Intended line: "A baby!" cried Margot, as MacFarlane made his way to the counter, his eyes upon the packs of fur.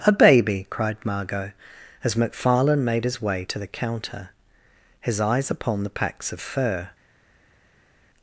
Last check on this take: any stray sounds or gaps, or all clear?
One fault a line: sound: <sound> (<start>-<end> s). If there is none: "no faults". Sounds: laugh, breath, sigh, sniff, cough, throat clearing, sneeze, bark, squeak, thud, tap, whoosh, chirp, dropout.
no faults